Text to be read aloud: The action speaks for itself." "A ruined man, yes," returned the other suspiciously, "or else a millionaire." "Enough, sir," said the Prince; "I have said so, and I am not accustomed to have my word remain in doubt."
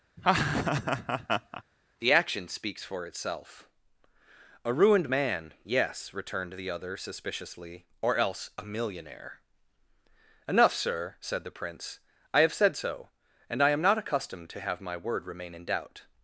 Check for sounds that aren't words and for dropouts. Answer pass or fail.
fail